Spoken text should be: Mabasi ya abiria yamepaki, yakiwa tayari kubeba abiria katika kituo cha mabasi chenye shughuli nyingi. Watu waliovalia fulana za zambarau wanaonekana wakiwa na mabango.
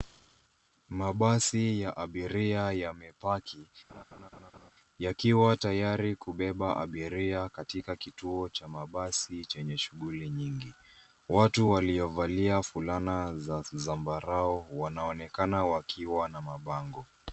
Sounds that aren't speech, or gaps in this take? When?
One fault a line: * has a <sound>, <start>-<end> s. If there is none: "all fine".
* has a laugh, 3.9-4.7 s